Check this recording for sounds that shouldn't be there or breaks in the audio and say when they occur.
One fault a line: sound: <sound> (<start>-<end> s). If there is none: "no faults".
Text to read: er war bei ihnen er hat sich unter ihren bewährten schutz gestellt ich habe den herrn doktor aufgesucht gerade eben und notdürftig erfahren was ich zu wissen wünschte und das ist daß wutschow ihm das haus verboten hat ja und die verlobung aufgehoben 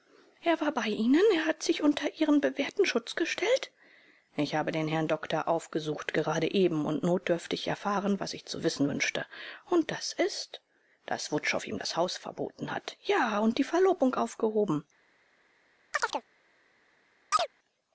sound: chirp (15.9-16.2 s)
sound: chirp (17.3-17.5 s)